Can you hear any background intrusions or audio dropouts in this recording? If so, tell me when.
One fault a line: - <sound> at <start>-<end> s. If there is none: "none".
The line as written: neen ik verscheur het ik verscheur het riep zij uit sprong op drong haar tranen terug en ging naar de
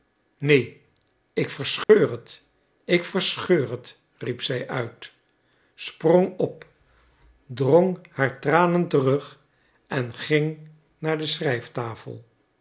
- dropout at 1.8-1.9 s